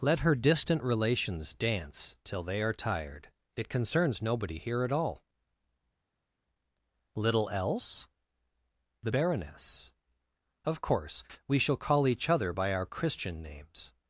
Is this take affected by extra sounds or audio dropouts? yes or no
no